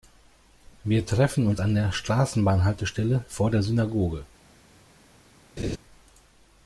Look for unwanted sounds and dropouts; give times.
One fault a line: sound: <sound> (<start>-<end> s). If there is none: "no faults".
sound: laugh (5.6-5.8 s)